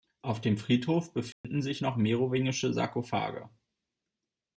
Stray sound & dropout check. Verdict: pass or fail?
fail